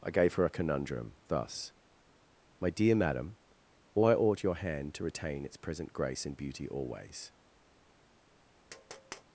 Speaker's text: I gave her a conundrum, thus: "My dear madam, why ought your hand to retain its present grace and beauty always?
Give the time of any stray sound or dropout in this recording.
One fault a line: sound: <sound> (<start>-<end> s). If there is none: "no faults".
sound: tap (8.7-9.2 s)